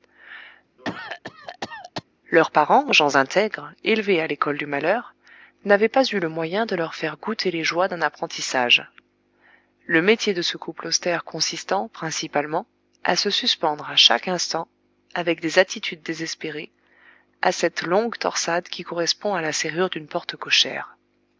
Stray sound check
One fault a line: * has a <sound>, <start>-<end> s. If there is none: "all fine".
* has a cough, 0.8-2.0 s